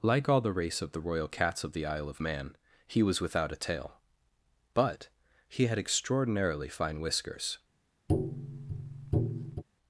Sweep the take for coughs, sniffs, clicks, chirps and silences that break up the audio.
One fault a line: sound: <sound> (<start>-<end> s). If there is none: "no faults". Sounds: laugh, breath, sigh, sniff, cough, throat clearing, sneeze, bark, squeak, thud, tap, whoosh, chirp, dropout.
sound: tap (8.1-9.6 s)